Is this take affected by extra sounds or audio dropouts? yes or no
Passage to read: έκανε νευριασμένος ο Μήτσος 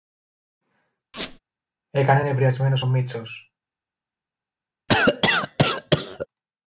yes